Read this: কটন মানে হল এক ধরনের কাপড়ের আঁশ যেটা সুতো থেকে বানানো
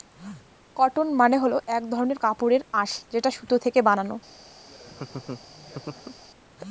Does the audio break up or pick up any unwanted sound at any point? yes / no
yes